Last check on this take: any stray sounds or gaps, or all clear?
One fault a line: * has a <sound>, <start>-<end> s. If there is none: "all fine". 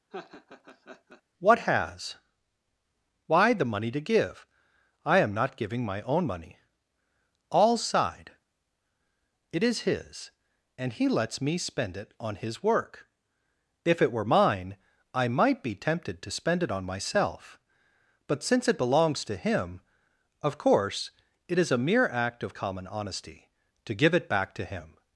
* has a laugh, 0.1-1.2 s